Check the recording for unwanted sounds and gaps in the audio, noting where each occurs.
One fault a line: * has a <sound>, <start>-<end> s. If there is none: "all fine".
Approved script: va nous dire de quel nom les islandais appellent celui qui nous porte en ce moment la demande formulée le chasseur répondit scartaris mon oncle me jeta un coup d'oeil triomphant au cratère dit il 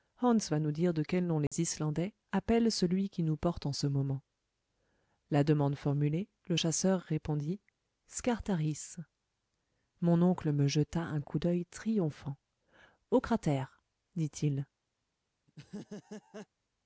* has a dropout, 1.5-1.5 s
* has a laugh, 15.5-16.5 s